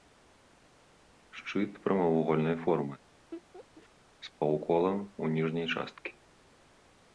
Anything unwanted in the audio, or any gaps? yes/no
yes